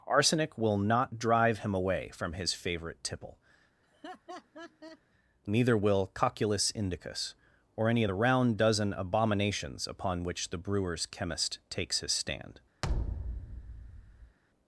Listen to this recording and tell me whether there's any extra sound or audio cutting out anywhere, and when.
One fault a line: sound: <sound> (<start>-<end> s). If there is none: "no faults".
sound: laugh (3.8-5.0 s)
sound: thud (12.8-14.4 s)